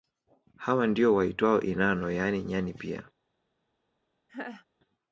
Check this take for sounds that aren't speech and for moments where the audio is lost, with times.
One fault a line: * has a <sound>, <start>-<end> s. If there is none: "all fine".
* has a laugh, 4.3-4.7 s